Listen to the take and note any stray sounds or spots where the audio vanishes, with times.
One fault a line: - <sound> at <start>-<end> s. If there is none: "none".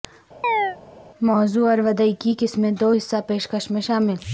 - chirp at 0.4-0.8 s